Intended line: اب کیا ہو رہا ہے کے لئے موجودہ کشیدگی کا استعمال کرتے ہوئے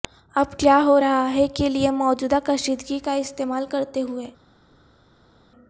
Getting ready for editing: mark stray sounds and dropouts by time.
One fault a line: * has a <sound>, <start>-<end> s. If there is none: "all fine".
all fine